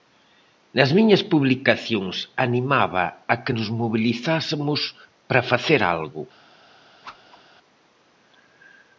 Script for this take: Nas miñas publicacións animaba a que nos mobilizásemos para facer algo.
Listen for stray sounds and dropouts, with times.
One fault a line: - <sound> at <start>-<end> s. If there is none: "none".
- whoosh at 7.0-7.4 s